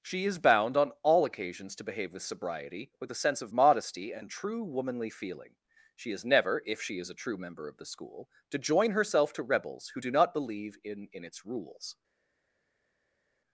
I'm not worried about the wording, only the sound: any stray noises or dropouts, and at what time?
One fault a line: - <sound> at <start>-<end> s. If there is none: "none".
none